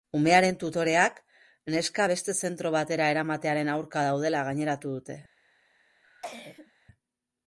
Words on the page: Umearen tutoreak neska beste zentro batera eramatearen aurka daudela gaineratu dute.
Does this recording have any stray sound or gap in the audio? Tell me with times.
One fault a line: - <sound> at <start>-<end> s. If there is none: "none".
- cough at 6.0-6.7 s